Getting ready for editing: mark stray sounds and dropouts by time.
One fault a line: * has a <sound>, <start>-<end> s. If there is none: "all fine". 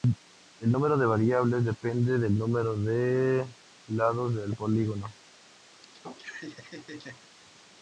* has a laugh, 5.7-7.3 s